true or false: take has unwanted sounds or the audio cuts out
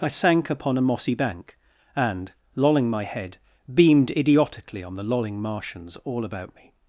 false